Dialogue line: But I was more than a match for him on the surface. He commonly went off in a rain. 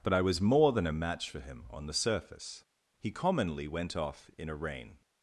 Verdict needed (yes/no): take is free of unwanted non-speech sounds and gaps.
yes